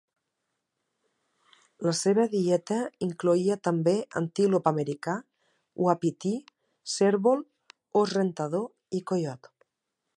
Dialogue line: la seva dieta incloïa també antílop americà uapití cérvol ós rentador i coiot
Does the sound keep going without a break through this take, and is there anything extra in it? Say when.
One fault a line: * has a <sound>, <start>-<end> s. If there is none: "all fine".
all fine